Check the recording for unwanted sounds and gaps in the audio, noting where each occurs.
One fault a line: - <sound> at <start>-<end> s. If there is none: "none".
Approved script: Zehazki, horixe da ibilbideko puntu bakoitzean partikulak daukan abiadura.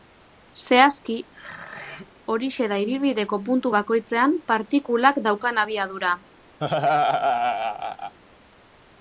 - throat clearing at 1.3-2.1 s
- laugh at 6.6-8.1 s